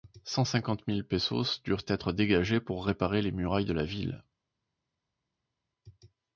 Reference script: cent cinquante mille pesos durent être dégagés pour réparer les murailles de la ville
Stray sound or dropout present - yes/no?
no